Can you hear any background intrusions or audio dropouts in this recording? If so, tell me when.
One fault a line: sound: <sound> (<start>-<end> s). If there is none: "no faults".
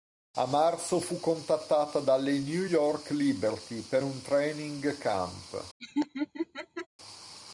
sound: laugh (5.8-6.9 s)